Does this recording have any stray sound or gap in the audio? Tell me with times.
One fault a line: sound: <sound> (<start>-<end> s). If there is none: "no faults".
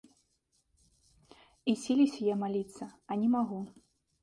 no faults